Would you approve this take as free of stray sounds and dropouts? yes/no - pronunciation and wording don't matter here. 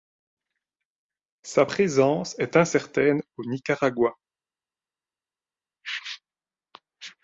yes